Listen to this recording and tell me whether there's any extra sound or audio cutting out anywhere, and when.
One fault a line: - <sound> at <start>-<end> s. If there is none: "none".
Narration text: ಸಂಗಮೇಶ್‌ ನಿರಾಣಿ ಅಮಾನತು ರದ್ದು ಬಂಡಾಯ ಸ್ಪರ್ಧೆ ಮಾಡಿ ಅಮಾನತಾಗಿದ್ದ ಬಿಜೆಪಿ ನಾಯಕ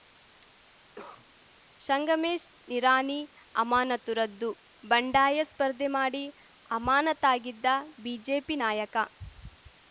- cough at 0.9-1.3 s